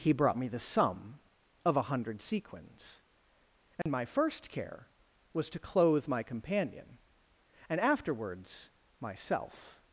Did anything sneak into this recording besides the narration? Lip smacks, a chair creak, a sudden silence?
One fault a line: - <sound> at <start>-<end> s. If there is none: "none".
- dropout at 3.8-3.9 s